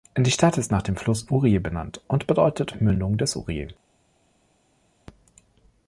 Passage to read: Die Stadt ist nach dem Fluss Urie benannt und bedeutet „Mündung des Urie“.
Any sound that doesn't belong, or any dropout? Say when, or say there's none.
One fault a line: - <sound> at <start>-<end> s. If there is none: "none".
none